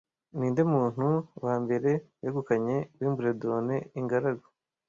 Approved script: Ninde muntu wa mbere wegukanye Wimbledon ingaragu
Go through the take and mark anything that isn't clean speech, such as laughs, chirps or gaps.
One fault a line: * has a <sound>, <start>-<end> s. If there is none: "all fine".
all fine